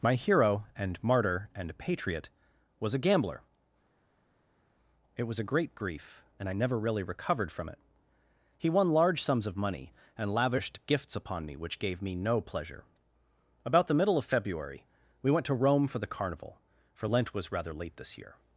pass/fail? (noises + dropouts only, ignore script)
pass